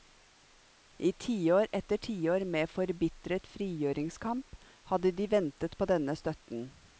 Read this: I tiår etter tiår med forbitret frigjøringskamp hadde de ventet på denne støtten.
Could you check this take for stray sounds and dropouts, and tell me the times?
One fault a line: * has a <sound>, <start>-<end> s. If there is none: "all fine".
all fine